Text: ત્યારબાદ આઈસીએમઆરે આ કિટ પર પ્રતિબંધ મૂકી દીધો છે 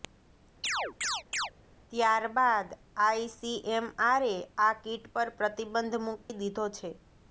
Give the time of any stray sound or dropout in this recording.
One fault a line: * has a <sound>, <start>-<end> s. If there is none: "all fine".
* has a chirp, 0.6-1.5 s
* has a dropout, 6.2-6.3 s